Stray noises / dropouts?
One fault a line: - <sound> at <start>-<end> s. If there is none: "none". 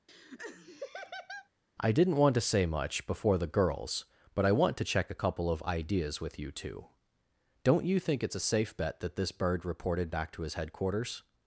- laugh at 0.1-1.5 s